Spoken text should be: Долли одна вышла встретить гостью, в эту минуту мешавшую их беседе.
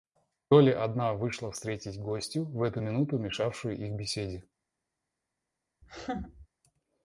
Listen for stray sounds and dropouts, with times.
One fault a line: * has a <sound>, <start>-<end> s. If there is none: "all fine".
* has a laugh, 5.8-6.5 s